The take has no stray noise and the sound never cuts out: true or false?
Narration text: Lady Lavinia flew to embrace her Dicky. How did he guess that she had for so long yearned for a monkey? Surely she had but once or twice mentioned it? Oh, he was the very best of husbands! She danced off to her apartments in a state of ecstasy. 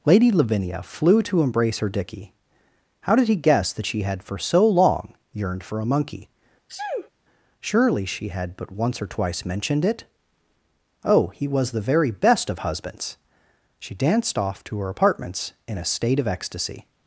false